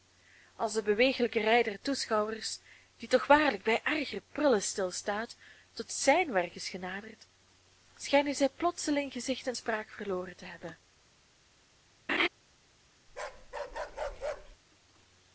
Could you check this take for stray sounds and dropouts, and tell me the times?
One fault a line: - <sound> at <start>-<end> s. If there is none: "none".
- laugh at 12.1-12.3 s
- bark at 13.1-14.6 s